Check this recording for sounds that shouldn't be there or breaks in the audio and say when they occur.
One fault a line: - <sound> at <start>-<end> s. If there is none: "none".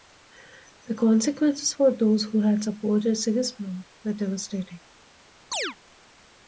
- chirp at 5.5-5.8 s